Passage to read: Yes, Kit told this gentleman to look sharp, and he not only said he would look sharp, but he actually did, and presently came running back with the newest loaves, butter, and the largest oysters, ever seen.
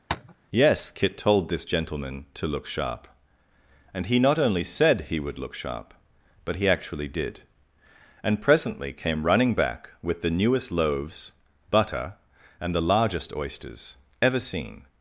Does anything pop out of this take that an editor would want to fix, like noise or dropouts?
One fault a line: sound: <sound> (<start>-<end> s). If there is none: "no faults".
sound: tap (0.1-0.3 s)